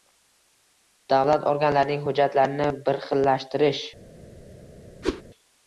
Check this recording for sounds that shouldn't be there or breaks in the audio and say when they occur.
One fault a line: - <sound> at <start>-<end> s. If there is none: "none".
- whoosh at 5.0-5.2 s